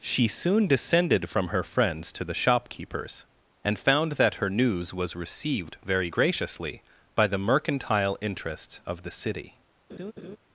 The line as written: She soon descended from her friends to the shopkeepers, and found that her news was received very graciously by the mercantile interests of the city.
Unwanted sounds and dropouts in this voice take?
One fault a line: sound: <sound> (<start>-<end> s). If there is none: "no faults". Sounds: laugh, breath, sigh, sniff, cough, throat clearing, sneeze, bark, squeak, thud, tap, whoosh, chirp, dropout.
sound: laugh (9.9-10.4 s)